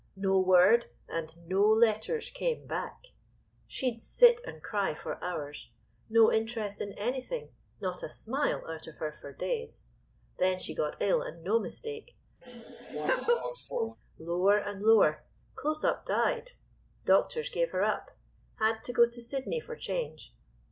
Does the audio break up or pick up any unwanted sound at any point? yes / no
yes